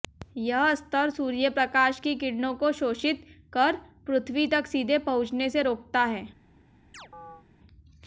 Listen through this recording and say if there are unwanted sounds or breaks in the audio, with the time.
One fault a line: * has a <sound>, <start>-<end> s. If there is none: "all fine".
* has a chirp, 6.9-7.5 s